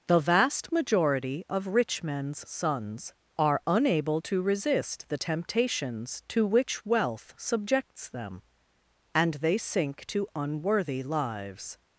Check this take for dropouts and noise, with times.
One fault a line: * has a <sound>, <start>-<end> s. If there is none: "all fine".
all fine